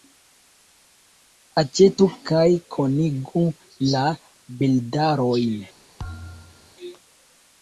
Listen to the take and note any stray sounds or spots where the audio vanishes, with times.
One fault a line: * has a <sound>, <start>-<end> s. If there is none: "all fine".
* has a thud, 6.0-6.8 s